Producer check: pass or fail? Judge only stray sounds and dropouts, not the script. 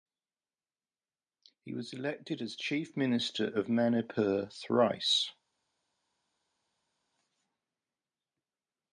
pass